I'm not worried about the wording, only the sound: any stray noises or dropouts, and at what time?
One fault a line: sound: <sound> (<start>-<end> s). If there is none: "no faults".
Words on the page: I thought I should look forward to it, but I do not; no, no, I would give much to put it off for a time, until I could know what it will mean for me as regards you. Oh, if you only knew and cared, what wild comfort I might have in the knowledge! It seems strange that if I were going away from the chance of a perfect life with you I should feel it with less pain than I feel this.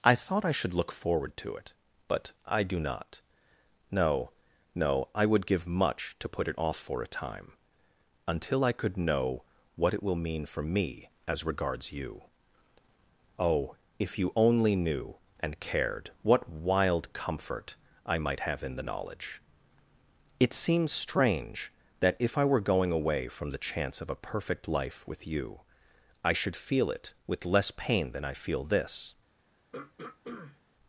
sound: throat clearing (29.7-30.6 s)